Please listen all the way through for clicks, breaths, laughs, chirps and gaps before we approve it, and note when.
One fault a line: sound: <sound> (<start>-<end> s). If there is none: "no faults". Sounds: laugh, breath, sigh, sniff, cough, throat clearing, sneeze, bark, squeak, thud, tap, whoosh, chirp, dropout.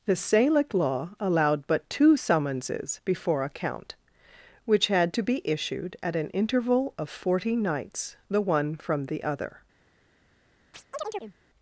sound: chirp (10.7-11.4 s)